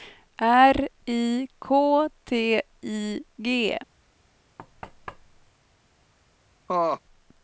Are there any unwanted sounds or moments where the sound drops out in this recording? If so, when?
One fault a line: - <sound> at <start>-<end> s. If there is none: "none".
- thud at 4.6-5.5 s
- laugh at 6.7-7.0 s